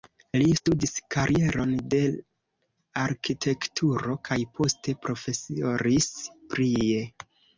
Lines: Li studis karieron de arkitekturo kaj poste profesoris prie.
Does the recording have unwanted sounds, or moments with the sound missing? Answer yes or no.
no